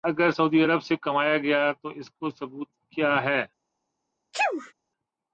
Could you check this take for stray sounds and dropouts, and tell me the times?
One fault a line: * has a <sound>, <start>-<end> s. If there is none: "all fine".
* has a sneeze, 4.3-4.7 s